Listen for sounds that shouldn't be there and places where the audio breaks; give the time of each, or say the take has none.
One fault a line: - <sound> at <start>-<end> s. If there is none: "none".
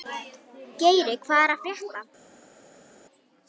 none